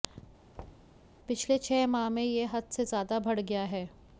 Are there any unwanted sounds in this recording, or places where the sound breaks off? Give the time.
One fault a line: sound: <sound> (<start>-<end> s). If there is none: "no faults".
sound: thud (0.5-1.0 s)